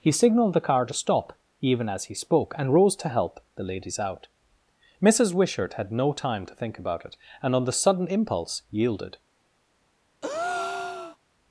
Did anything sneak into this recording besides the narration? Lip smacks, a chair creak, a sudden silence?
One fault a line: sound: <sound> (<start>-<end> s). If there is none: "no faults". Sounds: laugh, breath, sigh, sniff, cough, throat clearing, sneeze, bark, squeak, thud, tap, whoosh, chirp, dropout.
sound: breath (10.2-11.2 s)